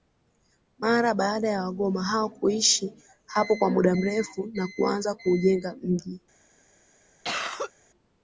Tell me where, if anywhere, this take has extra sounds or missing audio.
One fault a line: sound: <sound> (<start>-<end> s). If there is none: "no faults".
sound: cough (7.2-7.7 s)